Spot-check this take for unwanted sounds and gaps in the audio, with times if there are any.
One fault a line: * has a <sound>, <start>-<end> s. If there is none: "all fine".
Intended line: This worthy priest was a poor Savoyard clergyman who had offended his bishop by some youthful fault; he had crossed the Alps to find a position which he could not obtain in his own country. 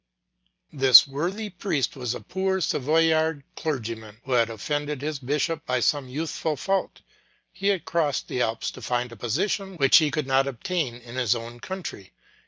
all fine